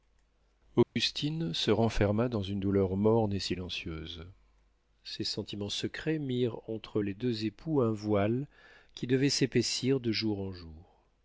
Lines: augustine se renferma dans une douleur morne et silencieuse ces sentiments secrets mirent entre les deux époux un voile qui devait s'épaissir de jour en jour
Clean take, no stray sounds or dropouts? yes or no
no